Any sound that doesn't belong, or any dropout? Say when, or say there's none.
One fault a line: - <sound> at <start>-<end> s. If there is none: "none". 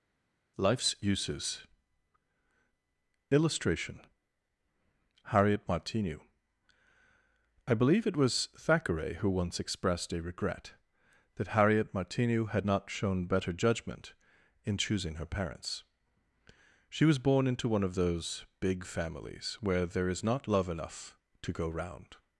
none